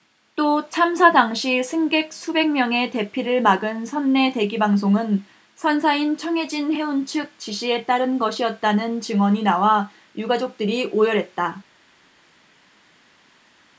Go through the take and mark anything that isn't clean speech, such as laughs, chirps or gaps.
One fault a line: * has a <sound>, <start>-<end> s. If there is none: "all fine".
all fine